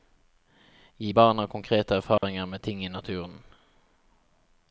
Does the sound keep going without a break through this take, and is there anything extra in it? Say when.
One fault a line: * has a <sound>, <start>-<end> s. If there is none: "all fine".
* has a dropout, 2.2-2.2 s